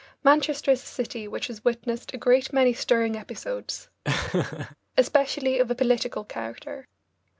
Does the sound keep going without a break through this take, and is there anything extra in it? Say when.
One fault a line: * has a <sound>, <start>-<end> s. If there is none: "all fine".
* has a laugh, 4.0-4.8 s